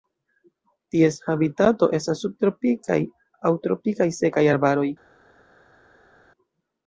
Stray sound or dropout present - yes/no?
no